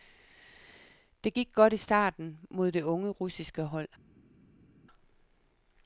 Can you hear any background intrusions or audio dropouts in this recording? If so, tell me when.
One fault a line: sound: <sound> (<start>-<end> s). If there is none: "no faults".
no faults